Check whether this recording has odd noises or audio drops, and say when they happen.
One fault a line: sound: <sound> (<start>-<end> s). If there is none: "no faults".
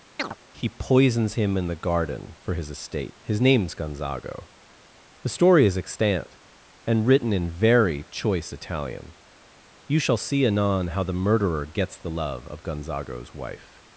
sound: chirp (0.2-0.4 s)